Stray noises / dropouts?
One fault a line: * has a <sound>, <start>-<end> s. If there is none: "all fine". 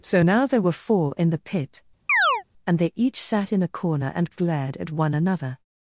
* has a chirp, 2.1-2.4 s